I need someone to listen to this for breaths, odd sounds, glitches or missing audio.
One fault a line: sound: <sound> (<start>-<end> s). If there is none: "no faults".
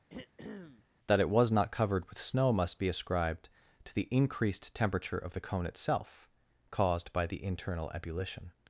sound: throat clearing (0.1-0.9 s)